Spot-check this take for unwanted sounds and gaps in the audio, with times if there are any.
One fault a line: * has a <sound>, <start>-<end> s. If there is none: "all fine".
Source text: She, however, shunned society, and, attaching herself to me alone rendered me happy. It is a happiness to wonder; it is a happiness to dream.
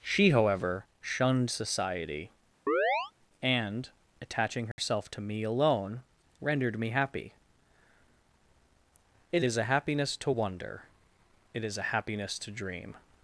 * has a chirp, 2.7-3.1 s
* has a dropout, 4.7-4.8 s